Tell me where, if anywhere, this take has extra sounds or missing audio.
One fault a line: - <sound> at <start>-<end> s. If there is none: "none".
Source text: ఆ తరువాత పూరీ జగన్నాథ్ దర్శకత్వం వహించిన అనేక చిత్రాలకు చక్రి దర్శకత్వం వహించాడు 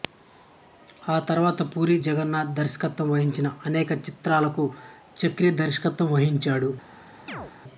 - chirp at 7.3-7.5 s